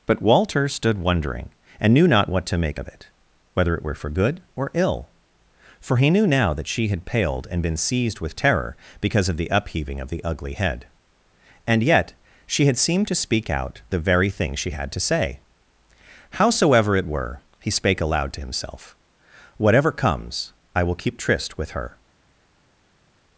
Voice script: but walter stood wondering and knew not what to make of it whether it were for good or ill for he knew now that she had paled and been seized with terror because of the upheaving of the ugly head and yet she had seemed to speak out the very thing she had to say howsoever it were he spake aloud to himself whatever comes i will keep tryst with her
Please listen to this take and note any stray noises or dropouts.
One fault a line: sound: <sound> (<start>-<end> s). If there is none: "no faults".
no faults